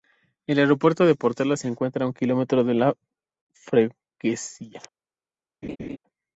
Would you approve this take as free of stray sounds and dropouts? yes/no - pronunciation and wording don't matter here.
no